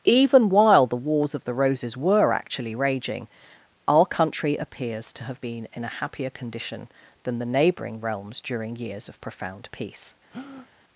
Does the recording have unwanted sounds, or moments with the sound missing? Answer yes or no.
yes